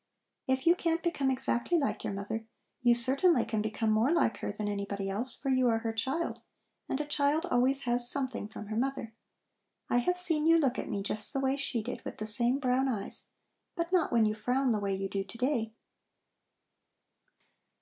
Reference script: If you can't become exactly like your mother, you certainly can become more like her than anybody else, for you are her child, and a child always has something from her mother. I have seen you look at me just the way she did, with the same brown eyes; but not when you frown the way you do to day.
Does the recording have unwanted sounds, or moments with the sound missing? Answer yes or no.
no